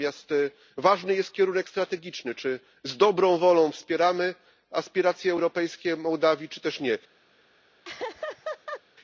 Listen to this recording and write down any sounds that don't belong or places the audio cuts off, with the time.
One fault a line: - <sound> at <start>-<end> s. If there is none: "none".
- laugh at 7.8-8.8 s